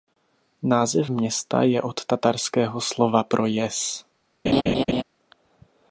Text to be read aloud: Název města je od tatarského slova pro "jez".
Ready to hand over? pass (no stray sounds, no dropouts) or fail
fail